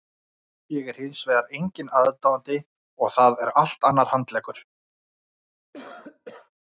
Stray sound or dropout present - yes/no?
yes